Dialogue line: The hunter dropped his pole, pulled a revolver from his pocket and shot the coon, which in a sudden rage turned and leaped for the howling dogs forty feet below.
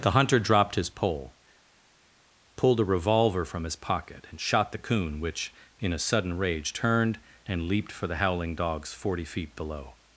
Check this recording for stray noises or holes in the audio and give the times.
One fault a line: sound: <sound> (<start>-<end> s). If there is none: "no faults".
no faults